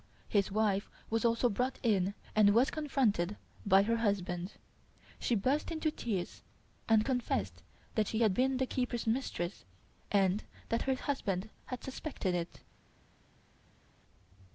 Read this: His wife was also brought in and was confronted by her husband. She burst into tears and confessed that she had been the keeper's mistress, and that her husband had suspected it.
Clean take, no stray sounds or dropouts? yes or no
yes